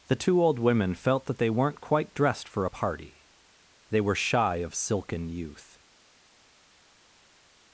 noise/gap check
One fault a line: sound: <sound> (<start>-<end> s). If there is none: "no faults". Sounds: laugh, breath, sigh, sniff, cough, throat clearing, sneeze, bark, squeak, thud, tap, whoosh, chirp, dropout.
no faults